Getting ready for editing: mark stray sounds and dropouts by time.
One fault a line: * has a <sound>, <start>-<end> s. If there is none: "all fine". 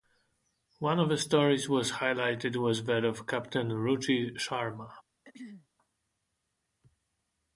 * has a throat clearing, 5.2-5.7 s